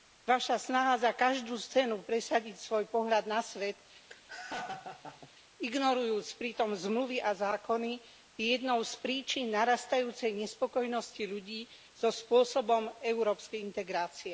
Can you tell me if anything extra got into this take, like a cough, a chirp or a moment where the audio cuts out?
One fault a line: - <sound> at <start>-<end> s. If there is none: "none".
- laugh at 4.1-5.3 s